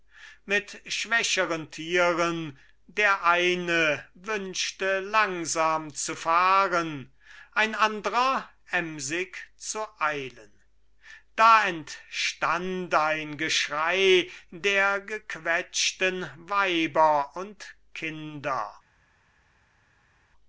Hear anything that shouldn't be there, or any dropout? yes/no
no